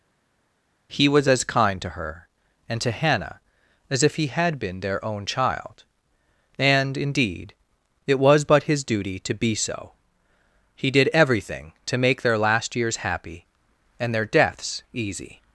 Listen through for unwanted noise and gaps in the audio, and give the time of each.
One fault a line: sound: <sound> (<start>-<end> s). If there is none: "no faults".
no faults